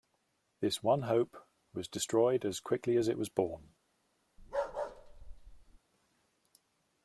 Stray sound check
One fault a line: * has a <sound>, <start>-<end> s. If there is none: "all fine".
* has a bark, 4.4-5.8 s